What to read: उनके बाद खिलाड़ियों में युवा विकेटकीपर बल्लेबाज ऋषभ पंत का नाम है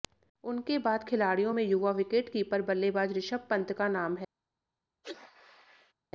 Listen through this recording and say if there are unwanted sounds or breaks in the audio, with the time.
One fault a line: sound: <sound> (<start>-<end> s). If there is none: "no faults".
sound: sneeze (5.0-5.9 s)